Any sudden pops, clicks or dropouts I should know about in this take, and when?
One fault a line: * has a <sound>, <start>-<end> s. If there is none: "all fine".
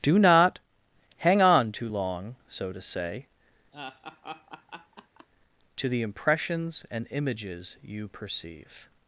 * has a laugh, 3.7-5.3 s